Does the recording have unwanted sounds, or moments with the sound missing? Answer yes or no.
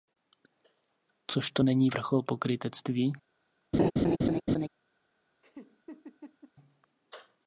yes